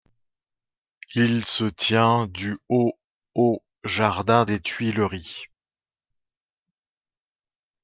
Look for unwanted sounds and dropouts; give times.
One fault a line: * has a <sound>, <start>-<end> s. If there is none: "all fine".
all fine